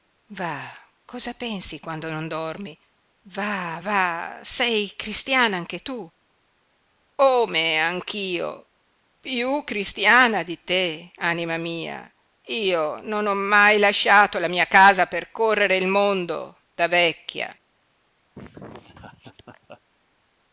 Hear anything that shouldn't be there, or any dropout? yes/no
yes